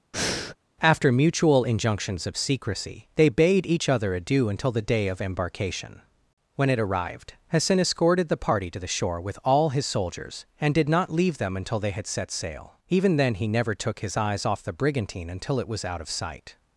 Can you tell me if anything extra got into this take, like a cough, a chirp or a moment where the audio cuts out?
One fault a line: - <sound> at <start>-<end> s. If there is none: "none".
- breath at 0.1-0.6 s